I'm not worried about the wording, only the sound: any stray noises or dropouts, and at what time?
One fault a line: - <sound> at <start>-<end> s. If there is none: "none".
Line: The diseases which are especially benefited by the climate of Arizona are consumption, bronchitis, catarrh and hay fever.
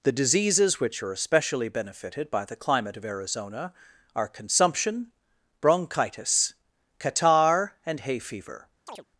- chirp at 8.9-9.0 s